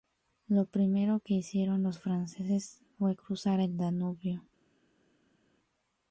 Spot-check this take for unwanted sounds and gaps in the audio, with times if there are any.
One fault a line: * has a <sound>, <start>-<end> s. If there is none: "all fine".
all fine